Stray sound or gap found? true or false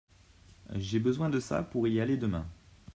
false